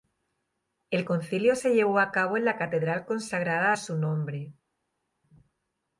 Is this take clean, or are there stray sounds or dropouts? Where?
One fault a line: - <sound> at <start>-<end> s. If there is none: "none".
none